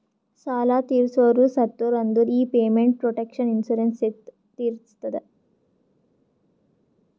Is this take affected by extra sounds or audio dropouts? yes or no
no